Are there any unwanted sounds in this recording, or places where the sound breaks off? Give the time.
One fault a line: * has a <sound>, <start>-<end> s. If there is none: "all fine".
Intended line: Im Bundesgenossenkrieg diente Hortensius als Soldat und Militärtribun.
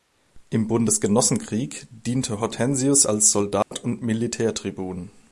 * has a dropout, 3.6-3.7 s